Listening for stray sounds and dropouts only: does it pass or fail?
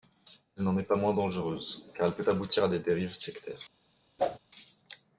fail